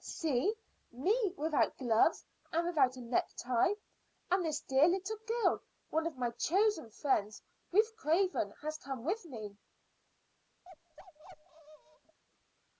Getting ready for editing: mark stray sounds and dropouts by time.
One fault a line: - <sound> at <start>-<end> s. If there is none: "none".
- bark at 10.6-12.2 s